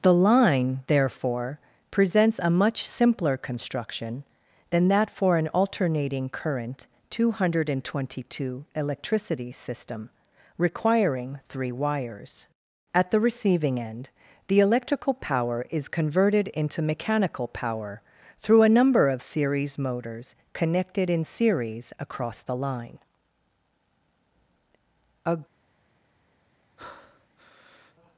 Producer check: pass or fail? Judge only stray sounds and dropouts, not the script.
fail